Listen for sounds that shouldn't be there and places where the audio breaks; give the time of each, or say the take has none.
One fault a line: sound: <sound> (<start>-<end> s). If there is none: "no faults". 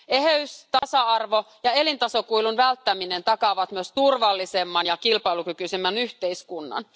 sound: dropout (0.8-0.8 s)